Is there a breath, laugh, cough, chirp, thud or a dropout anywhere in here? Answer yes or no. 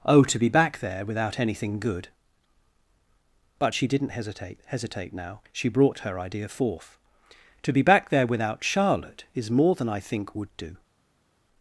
no